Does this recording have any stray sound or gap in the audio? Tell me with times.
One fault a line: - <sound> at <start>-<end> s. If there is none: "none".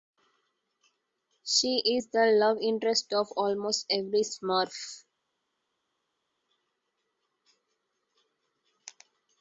none